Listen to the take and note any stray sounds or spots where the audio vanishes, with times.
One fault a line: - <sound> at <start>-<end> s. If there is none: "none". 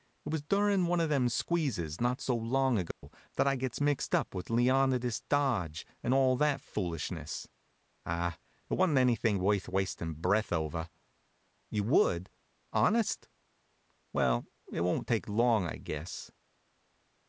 - dropout at 2.9-3.0 s